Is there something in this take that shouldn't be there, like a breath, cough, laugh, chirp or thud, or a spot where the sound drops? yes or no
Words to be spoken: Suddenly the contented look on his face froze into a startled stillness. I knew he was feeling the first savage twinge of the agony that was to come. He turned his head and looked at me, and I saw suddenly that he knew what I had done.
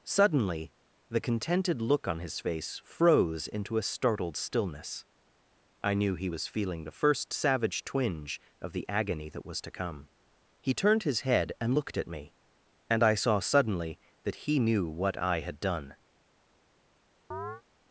yes